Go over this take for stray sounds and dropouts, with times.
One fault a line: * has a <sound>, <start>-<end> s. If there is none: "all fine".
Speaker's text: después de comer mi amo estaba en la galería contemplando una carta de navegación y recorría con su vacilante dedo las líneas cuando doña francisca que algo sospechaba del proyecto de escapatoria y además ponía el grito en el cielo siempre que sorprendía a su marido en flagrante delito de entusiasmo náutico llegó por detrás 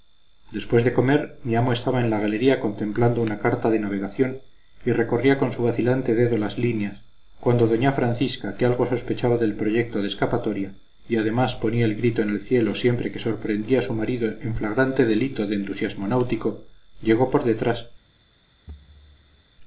* has a thud, 18.7-19.4 s